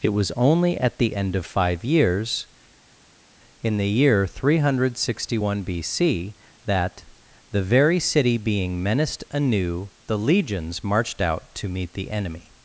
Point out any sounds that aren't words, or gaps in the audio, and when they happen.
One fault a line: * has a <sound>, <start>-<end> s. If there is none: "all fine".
all fine